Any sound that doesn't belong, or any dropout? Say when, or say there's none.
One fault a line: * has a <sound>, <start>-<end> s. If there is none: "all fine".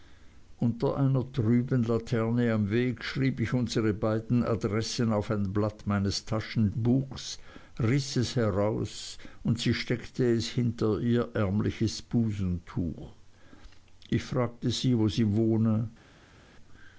all fine